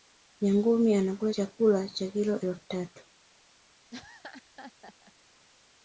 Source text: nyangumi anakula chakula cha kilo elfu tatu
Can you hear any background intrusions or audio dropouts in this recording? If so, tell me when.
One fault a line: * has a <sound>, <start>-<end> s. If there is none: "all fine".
* has a laugh, 3.9-5.1 s